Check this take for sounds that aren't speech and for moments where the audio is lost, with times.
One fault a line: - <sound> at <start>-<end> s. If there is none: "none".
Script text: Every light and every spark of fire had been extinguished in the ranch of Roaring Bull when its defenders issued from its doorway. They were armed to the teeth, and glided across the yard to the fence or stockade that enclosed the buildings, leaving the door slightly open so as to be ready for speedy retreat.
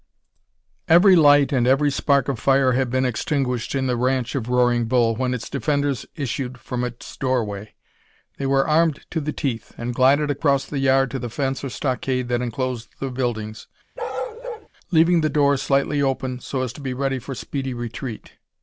- bark at 14.0-14.7 s